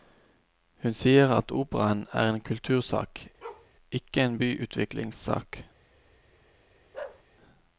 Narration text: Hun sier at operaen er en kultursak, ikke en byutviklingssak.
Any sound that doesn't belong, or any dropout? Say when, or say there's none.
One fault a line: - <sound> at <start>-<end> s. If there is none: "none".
- bark at 3.4-3.7 s
- bark at 6.9-7.2 s